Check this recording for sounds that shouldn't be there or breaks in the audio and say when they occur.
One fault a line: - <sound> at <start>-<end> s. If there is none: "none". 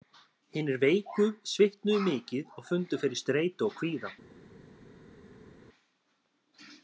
none